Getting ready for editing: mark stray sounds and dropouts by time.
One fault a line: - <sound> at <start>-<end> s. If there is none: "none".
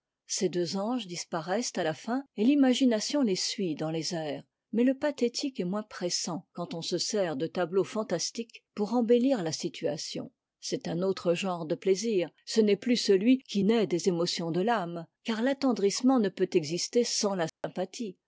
- dropout at 17.5-17.6 s